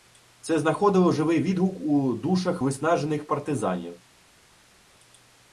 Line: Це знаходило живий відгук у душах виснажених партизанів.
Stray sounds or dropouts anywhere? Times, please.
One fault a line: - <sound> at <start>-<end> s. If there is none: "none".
none